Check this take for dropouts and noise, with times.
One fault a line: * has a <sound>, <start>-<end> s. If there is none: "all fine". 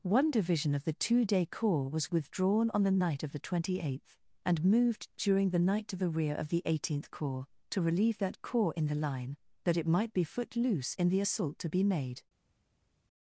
all fine